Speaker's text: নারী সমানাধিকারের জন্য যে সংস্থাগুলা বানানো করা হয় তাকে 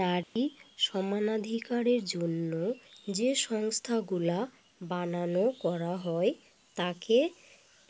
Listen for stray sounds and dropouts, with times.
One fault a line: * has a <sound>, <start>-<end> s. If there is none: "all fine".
* has a dropout, 0.2-0.4 s